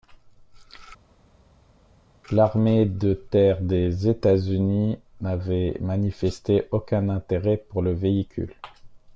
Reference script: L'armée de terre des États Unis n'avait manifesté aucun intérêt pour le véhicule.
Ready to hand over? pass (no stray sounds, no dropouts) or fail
pass